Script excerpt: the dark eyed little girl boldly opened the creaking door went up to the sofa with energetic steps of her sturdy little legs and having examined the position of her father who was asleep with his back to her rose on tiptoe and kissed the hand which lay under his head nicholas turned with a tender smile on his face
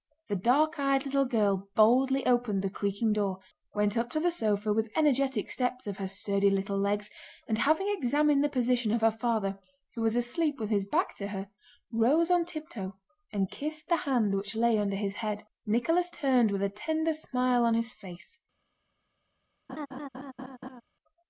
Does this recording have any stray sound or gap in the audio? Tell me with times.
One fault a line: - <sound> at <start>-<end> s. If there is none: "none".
- laugh at 19.7-20.8 s